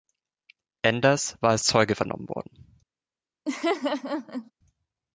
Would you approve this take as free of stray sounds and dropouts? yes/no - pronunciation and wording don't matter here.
no